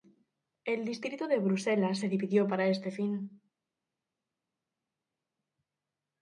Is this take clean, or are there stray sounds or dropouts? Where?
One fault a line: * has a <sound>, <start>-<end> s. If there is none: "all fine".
all fine